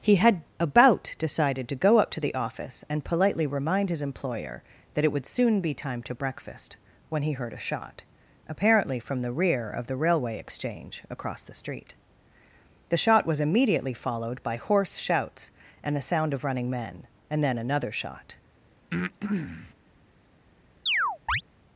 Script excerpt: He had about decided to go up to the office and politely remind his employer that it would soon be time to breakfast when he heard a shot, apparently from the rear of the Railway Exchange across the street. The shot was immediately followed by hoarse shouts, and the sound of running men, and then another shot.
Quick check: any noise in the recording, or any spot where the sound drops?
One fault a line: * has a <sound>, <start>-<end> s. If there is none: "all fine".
* has a breath, 18.9-19.7 s
* has a chirp, 20.9-21.4 s